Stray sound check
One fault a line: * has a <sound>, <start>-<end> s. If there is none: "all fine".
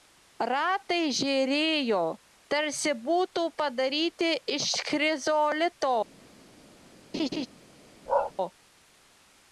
* has a laugh, 7.1-7.5 s
* has a bark, 8.1-8.3 s